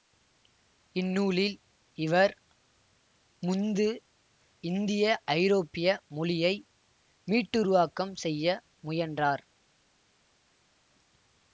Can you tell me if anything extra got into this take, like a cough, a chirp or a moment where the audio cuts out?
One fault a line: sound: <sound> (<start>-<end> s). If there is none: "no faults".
no faults